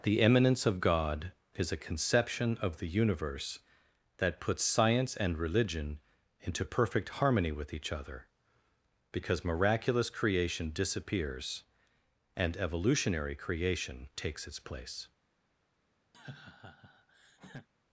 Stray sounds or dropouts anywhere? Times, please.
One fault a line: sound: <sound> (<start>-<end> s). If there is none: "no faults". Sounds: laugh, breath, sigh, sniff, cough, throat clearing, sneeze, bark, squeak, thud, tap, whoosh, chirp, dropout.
sound: laugh (16.1-17.7 s)